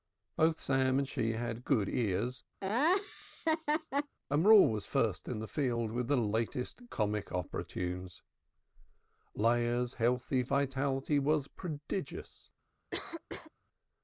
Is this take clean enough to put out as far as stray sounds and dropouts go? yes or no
no